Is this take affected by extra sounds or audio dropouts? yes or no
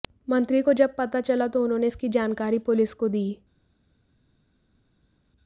no